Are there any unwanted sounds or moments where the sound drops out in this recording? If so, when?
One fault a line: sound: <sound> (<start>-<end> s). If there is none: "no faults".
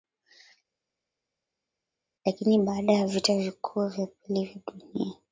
no faults